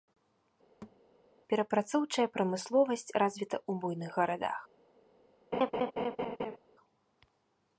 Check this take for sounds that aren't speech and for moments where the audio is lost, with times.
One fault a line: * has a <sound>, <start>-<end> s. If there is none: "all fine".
* has a thud, 0.8-1.0 s
* has a laugh, 5.5-6.6 s